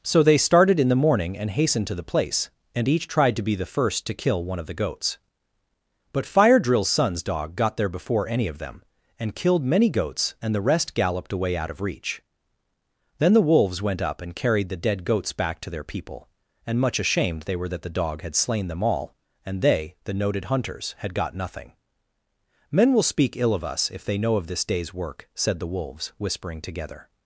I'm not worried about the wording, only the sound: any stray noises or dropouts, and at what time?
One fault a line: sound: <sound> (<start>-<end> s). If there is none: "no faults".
no faults